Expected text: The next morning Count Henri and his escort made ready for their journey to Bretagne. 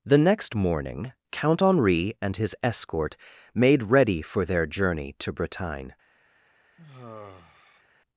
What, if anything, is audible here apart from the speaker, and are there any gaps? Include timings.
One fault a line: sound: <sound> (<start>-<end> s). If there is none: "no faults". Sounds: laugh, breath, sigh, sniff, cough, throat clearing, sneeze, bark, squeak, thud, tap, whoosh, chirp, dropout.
sound: sigh (6.8-7.8 s)